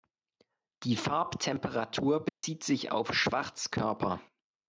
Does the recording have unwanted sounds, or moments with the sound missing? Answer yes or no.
yes